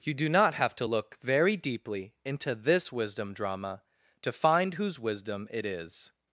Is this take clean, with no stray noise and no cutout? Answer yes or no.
yes